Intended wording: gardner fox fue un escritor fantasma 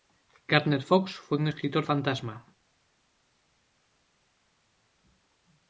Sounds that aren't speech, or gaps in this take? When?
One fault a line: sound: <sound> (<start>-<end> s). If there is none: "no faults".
no faults